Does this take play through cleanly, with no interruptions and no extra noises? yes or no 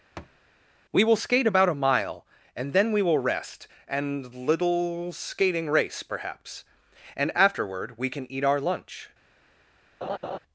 no